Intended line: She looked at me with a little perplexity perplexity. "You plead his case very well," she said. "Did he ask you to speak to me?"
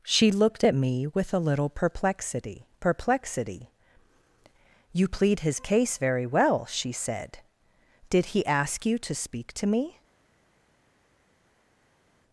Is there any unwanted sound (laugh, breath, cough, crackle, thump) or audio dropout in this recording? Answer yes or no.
no